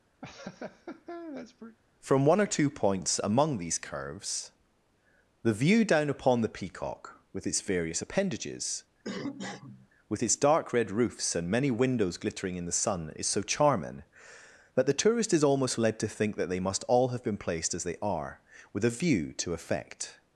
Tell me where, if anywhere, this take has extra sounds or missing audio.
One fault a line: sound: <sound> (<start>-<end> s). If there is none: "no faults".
sound: laugh (0.2-1.8 s)
sound: cough (9.0-9.9 s)